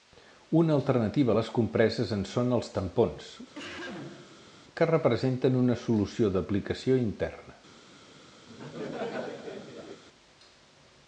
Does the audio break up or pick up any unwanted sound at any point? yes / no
yes